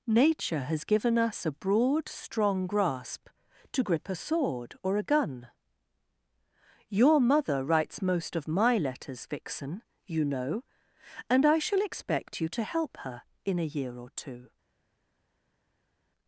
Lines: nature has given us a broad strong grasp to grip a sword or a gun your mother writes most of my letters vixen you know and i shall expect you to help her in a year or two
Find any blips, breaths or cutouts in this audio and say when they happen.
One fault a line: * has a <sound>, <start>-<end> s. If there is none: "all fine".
all fine